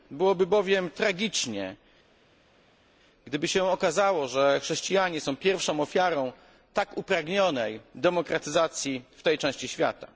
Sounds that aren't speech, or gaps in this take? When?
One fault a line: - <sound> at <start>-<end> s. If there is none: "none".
none